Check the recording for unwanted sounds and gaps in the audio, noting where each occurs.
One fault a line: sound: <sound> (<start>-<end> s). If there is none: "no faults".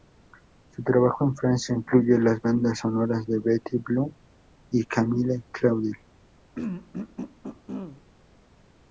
sound: throat clearing (6.5-8.0 s)